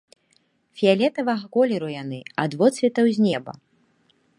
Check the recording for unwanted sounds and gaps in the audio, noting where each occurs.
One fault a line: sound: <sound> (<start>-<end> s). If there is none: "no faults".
no faults